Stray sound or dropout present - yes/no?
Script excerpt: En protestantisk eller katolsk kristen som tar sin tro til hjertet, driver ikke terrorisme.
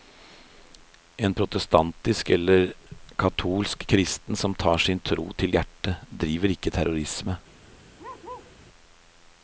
yes